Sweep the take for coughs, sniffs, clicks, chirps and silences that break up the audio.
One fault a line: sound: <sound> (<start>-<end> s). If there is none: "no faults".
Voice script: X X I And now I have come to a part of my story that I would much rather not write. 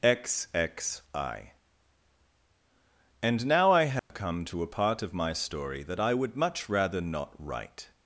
sound: dropout (4.0-4.1 s)